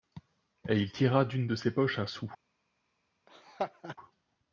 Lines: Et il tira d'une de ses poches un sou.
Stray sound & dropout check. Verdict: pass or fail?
fail